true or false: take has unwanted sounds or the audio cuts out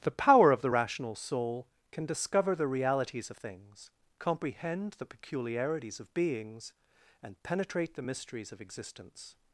false